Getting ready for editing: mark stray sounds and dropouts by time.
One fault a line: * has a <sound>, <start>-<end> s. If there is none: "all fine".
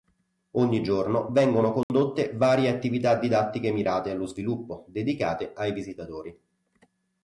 * has a dropout, 1.8-1.9 s